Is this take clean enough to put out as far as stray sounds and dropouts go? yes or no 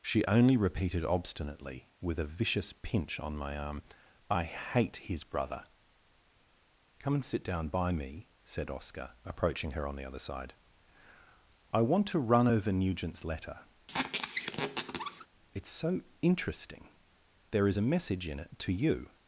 no